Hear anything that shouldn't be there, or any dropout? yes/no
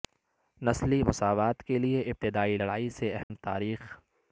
yes